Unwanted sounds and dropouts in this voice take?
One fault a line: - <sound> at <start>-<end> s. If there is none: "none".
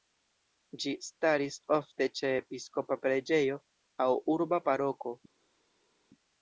none